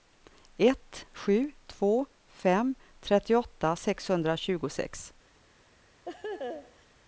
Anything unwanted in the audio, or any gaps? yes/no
yes